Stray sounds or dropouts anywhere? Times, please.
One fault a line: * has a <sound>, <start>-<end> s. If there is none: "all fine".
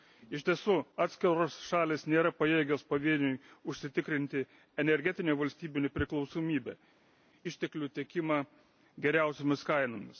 all fine